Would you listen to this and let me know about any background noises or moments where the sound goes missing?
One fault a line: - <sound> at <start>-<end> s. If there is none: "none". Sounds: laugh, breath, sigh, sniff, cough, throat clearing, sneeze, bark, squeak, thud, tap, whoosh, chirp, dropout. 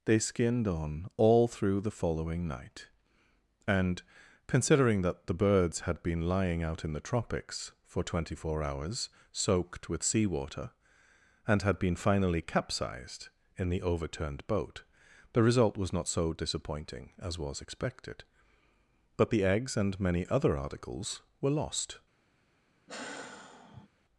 - sigh at 22.9-23.9 s